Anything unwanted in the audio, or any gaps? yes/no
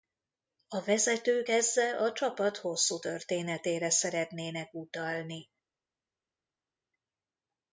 no